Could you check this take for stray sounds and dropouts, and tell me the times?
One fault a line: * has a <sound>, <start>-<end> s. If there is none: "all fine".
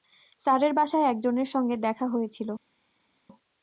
all fine